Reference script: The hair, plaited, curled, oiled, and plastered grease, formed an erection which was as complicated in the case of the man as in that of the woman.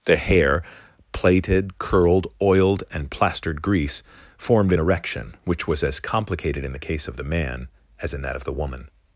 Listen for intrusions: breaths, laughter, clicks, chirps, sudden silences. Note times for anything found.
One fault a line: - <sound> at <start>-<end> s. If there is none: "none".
none